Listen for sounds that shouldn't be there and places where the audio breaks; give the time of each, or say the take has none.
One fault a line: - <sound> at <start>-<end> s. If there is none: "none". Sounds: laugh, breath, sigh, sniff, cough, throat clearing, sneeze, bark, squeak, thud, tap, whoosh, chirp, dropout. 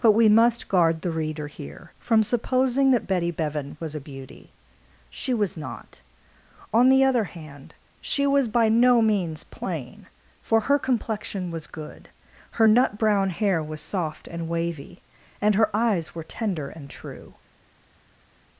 none